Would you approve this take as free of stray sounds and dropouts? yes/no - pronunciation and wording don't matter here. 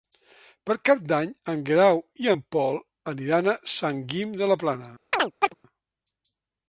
no